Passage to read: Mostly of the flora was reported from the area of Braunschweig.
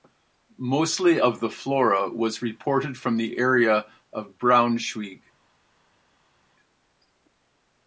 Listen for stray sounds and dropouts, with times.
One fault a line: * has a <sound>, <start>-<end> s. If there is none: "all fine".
all fine